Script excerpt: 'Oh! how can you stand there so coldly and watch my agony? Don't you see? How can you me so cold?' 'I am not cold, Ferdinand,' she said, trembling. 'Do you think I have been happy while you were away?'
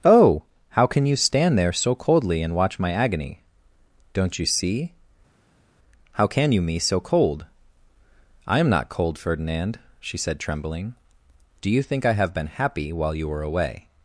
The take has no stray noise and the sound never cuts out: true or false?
true